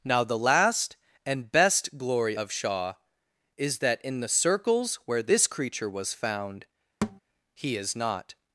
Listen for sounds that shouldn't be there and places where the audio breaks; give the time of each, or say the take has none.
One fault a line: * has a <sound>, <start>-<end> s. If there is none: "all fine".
* has a thud, 7.0-7.2 s